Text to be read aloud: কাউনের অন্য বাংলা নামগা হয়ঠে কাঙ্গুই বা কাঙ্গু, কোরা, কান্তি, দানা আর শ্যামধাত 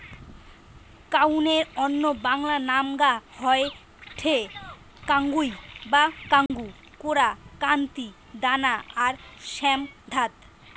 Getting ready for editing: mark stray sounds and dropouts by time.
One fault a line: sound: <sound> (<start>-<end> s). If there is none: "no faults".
sound: dropout (6.5-6.5 s)